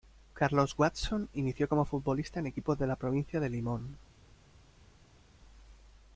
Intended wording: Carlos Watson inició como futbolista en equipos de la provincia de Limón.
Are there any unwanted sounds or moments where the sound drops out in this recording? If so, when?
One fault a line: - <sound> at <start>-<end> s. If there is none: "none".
none